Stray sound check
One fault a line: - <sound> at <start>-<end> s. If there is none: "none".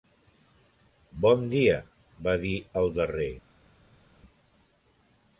none